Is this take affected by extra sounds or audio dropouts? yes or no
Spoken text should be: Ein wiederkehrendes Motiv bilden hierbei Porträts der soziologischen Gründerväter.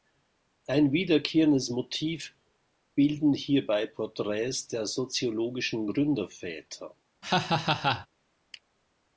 yes